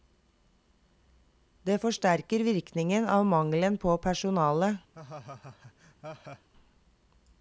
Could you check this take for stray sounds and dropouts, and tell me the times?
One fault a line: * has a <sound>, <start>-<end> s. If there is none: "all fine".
* has a laugh, 4.9-6.5 s